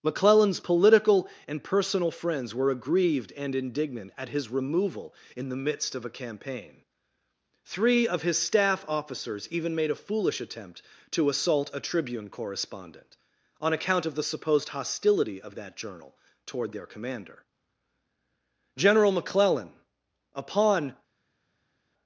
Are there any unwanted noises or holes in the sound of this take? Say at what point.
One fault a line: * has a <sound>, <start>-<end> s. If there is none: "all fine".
all fine